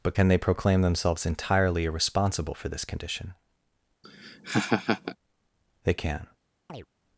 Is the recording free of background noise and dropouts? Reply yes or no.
no